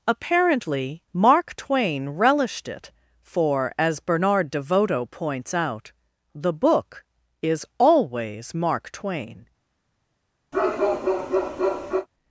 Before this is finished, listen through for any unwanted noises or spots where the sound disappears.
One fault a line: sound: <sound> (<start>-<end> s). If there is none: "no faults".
sound: bark (10.5-12.1 s)